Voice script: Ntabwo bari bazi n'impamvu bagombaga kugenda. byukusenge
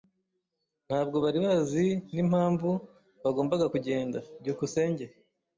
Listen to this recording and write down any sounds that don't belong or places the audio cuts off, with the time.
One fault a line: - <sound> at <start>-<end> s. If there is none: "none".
none